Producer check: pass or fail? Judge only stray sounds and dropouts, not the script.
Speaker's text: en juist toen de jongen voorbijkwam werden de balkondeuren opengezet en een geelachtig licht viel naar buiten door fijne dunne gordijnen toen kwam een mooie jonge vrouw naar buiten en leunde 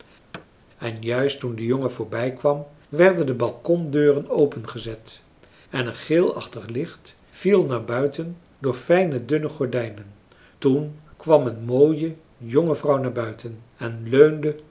fail